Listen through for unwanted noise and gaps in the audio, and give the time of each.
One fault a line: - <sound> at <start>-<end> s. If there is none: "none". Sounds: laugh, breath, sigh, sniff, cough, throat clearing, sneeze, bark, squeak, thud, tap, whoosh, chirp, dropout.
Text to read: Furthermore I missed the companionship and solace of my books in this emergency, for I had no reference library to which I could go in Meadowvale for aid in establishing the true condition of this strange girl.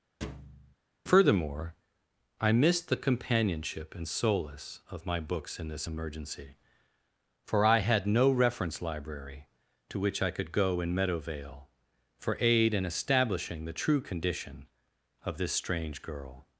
- thud at 0.2-0.8 s